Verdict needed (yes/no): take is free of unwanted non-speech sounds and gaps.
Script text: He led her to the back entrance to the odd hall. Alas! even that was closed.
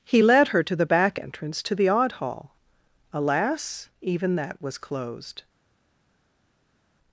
yes